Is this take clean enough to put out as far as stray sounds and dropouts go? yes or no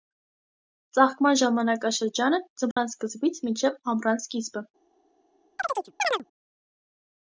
no